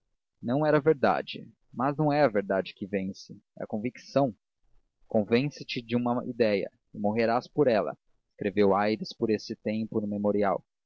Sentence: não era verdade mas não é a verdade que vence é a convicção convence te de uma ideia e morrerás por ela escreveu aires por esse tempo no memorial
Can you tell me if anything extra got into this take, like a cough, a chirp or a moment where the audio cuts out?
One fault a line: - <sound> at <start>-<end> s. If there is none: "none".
none